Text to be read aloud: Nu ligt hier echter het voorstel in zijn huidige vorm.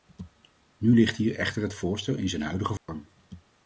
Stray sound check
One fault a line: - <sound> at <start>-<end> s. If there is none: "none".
- dropout at 2.8-2.9 s